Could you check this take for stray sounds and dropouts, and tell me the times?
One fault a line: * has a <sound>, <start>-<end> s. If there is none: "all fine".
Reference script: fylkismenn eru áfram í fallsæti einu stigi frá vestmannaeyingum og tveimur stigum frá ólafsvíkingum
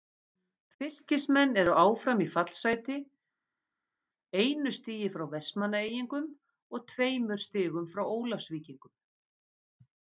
all fine